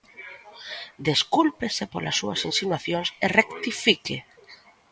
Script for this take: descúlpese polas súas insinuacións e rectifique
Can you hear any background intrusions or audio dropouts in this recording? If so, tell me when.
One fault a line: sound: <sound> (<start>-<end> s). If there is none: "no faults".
no faults